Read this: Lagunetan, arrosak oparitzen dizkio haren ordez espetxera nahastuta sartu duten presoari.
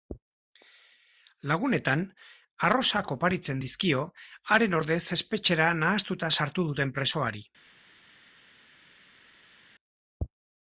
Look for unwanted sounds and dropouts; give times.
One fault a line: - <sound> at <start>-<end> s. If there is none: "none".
none